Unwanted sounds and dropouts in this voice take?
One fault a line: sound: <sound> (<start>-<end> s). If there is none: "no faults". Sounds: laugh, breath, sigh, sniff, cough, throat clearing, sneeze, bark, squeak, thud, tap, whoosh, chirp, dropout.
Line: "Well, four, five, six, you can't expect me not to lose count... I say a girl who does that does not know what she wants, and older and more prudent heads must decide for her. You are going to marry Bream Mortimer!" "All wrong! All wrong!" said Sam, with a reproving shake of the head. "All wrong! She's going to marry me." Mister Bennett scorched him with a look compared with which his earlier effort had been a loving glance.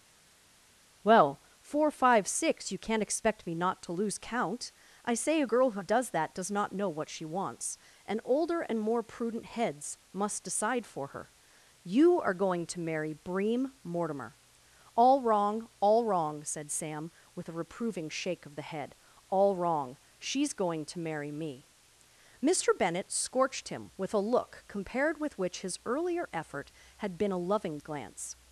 no faults